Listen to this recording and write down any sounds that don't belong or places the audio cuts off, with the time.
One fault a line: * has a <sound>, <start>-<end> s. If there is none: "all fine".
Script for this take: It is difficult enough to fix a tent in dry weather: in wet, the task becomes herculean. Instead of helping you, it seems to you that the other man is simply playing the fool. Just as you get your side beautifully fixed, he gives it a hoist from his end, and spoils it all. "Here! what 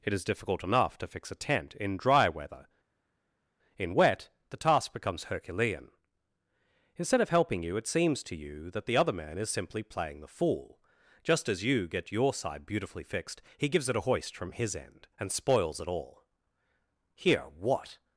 all fine